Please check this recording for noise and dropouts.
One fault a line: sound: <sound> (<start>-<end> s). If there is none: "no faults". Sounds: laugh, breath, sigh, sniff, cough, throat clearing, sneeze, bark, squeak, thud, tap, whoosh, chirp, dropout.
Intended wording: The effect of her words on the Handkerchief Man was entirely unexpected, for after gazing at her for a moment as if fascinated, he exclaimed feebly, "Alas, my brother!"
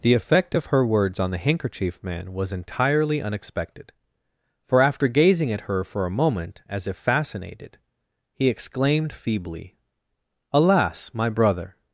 no faults